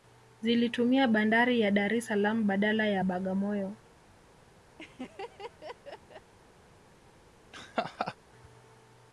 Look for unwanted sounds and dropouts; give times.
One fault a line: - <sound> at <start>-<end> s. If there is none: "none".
- laugh at 4.8-6.3 s
- laugh at 7.5-8.2 s